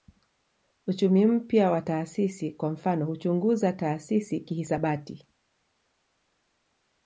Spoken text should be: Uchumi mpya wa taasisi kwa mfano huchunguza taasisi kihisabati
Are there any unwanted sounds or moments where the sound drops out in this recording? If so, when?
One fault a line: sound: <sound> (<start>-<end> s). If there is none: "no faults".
no faults